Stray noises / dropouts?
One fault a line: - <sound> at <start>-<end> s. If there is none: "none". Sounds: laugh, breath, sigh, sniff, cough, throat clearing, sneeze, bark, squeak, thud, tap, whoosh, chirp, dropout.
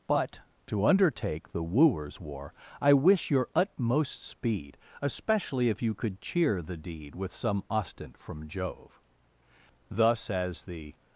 none